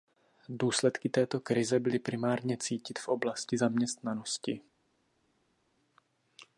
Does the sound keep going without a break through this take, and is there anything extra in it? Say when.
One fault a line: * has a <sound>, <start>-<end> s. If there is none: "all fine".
all fine